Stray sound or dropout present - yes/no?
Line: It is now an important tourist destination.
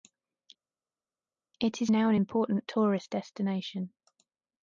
no